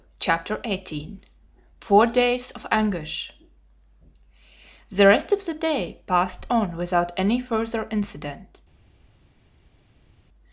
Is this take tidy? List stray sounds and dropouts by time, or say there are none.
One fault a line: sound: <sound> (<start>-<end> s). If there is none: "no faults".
no faults